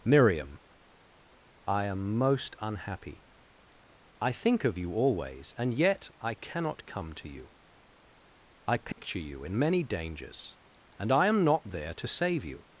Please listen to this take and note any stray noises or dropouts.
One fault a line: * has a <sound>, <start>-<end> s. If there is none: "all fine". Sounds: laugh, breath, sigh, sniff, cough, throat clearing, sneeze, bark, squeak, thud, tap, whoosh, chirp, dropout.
* has a dropout, 8.9-9.0 s